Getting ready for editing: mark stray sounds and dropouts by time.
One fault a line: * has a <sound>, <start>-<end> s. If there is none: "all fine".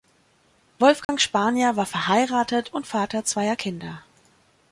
* has a dropout, 1.0-1.1 s